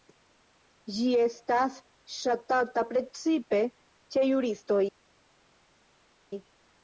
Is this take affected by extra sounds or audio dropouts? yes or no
no